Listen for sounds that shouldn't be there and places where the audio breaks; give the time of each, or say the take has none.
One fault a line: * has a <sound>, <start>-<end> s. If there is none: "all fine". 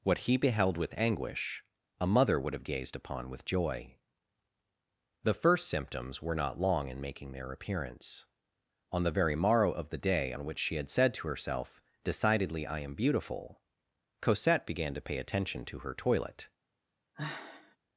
* has a sigh, 17.1-17.8 s